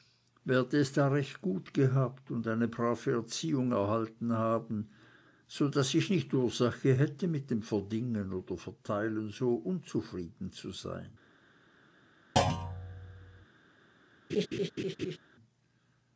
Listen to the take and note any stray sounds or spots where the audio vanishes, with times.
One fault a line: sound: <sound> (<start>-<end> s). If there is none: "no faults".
sound: thud (12.4-13.5 s)
sound: laugh (14.3-15.2 s)